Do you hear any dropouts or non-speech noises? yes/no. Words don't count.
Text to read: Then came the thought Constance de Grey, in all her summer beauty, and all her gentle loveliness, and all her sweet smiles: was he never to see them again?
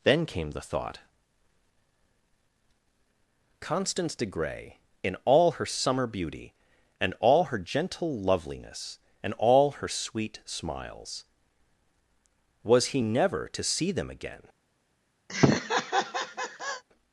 yes